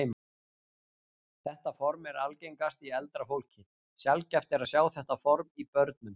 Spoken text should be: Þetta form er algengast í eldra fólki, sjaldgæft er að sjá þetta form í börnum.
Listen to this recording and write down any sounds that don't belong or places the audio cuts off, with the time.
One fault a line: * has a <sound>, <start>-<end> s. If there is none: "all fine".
all fine